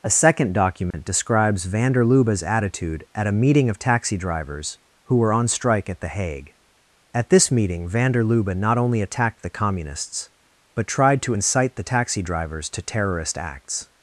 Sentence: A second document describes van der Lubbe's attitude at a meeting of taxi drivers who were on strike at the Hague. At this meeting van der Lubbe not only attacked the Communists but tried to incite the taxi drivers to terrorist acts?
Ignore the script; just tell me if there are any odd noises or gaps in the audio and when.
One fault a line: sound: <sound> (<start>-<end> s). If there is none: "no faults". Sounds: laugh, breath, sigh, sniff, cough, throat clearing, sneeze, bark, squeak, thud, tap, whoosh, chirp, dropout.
sound: dropout (0.9-0.9 s)